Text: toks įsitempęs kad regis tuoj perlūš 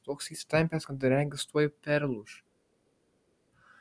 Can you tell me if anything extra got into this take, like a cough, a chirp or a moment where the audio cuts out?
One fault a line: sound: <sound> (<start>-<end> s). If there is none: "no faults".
no faults